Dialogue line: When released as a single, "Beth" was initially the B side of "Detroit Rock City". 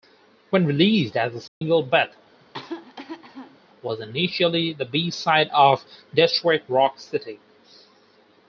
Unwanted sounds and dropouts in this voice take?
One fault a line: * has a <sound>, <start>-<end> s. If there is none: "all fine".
* has a dropout, 1.5-1.6 s
* has a cough, 2.4-3.6 s